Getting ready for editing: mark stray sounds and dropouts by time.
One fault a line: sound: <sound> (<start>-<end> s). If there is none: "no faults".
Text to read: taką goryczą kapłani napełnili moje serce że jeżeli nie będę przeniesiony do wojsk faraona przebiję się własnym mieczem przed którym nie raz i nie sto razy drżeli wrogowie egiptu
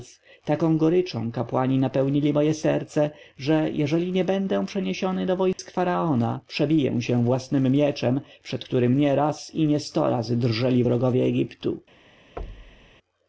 sound: dropout (5.5-5.6 s)
sound: thud (12.4-12.9 s)